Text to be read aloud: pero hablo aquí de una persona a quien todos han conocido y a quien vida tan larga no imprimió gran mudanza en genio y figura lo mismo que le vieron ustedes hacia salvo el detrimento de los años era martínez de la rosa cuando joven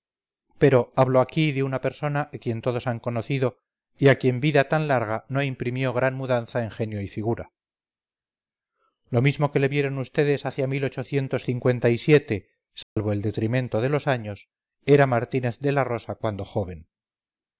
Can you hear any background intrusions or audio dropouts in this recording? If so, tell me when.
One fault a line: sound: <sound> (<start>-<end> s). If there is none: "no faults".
sound: dropout (12.8-13.0 s)